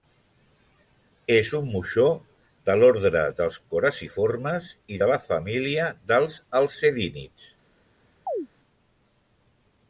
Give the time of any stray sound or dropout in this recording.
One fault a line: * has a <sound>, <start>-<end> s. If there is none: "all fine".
* has a chirp, 8.3-8.5 s